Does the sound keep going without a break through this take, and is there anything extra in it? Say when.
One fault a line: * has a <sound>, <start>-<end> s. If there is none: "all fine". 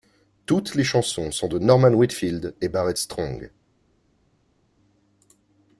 all fine